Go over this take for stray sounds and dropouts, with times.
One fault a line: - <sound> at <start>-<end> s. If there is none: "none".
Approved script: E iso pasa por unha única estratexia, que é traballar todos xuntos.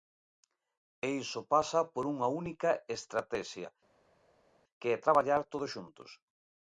none